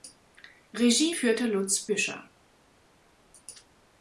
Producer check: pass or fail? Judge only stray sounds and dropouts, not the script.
pass